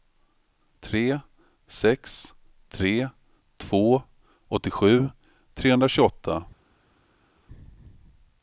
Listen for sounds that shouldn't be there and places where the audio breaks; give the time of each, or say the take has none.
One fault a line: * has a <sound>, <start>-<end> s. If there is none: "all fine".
all fine